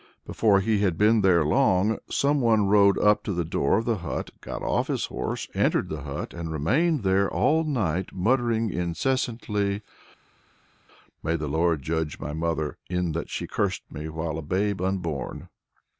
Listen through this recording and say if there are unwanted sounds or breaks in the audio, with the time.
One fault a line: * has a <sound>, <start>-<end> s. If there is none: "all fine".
all fine